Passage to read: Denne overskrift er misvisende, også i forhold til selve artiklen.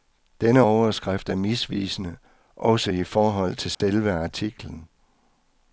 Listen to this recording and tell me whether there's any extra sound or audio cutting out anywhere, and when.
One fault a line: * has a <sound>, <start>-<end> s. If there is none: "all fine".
* has a dropout, 3.7-3.8 s